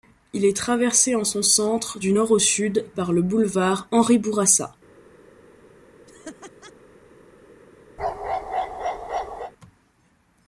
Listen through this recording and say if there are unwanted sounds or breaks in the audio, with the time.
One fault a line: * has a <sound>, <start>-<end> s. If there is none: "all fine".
* has a laugh, 6.1-6.7 s
* has a bark, 8.0-9.5 s